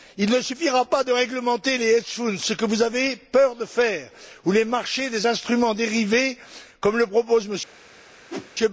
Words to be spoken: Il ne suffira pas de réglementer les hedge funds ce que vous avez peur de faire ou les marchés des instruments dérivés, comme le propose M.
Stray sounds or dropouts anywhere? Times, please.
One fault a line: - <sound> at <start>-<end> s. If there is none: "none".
- whoosh at 8.3-8.5 s